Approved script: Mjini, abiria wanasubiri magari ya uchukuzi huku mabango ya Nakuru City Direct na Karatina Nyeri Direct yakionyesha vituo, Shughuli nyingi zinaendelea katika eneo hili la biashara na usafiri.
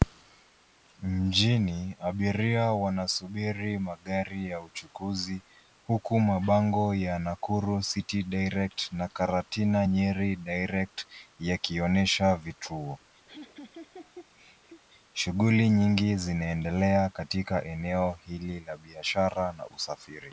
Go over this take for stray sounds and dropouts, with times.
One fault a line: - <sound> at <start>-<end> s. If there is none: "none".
- laugh at 13.3-14.8 s